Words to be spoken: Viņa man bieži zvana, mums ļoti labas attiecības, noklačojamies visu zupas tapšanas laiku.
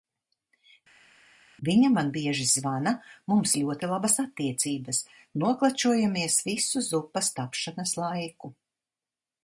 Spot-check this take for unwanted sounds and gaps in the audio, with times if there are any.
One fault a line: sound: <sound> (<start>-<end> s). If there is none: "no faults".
no faults